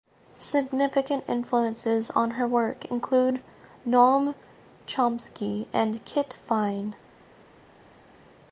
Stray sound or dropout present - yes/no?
no